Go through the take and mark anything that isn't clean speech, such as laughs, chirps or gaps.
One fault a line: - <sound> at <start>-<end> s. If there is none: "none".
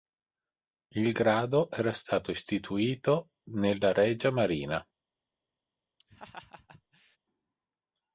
- laugh at 6.0-7.2 s